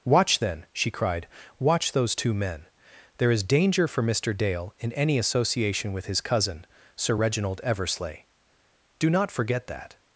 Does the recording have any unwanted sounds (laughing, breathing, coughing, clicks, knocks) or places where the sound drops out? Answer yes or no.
no